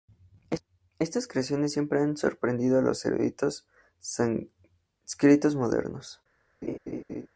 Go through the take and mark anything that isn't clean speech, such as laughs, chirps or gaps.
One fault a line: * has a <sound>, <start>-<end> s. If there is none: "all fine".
* has a laugh, 6.6-7.3 s